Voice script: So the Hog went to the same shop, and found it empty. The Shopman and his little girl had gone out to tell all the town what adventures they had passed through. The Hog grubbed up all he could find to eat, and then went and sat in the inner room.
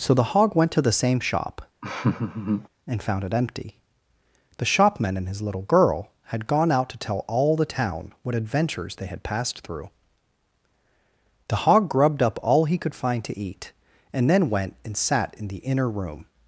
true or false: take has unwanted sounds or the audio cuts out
true